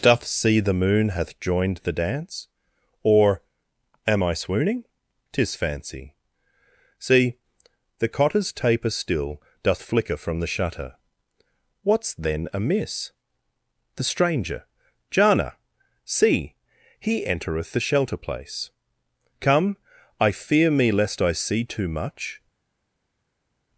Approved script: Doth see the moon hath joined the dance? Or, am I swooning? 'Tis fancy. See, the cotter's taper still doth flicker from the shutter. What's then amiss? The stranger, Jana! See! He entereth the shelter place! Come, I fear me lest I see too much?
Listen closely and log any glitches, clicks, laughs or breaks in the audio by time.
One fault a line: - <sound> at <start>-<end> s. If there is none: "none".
none